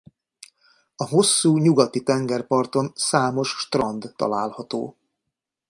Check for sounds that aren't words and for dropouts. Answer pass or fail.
pass